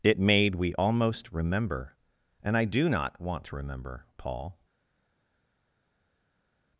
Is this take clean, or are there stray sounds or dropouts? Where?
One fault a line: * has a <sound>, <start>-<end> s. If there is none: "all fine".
all fine